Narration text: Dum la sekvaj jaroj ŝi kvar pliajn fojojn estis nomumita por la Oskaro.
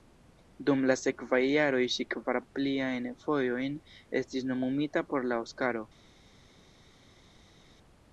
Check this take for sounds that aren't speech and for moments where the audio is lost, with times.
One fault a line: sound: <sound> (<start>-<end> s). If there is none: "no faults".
no faults